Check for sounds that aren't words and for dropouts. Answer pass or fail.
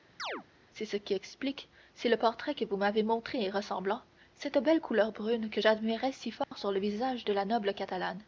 fail